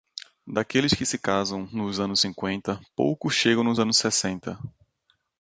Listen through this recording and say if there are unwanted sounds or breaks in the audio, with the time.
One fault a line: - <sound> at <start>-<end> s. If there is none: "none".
none